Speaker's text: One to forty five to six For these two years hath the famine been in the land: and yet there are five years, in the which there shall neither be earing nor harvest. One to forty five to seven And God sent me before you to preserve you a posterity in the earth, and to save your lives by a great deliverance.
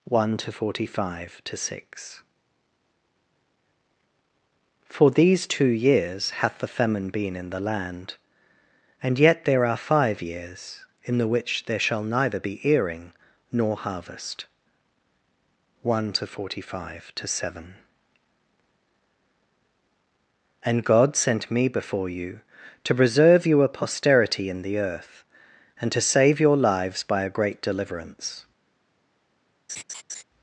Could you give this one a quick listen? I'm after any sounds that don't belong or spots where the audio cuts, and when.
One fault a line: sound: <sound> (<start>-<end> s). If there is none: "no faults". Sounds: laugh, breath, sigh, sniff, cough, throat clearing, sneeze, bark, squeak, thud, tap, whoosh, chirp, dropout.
sound: laugh (29.7-30.2 s)